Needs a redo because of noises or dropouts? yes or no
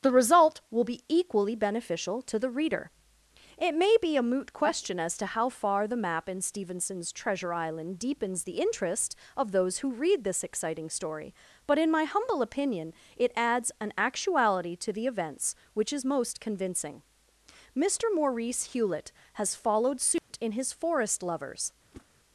yes